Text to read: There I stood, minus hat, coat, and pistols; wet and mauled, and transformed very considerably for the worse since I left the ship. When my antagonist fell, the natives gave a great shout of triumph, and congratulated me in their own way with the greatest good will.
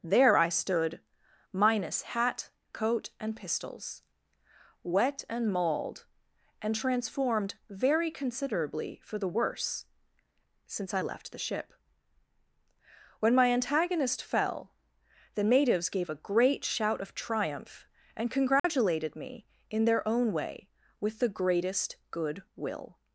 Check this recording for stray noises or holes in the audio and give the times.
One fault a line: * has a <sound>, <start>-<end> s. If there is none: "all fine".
* has a dropout, 18.6-18.6 s